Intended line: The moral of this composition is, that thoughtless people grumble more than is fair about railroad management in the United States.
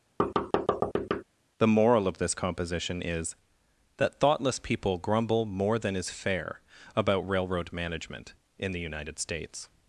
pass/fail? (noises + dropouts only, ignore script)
fail